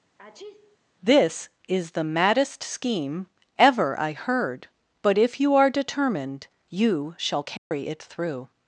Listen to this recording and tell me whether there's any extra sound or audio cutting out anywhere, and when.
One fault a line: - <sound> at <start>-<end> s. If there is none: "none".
- sneeze at 0.2-0.8 s
- dropout at 7.6-7.7 s